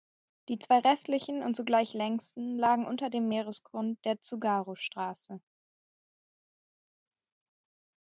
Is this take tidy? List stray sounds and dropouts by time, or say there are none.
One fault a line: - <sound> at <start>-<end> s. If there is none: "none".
none